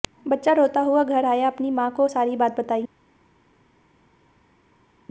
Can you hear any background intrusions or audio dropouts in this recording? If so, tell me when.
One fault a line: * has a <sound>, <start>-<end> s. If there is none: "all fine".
all fine